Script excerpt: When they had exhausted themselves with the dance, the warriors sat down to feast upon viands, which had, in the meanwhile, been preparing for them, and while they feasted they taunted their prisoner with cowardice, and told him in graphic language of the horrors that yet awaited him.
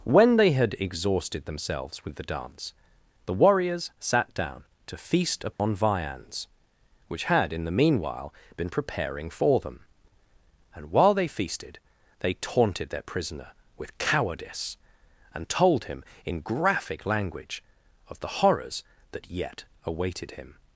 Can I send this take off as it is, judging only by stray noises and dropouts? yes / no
no